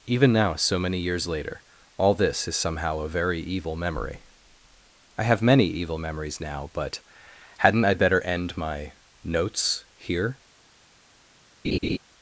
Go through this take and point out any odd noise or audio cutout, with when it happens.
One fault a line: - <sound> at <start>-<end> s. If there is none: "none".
- laugh at 11.6-12.0 s